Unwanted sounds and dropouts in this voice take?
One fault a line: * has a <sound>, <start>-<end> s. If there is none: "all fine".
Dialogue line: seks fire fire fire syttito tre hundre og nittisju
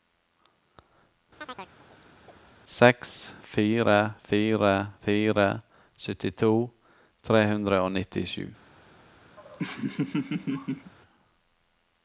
* has a chirp, 1.4-2.4 s
* has a laugh, 9.4-10.9 s